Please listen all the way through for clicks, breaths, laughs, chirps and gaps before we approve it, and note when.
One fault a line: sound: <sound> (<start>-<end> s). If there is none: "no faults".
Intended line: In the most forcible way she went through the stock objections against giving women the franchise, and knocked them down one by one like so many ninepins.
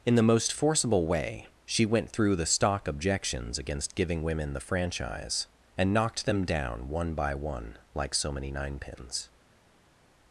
no faults